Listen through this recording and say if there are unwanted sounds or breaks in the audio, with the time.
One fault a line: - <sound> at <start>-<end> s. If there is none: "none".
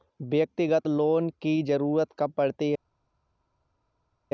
none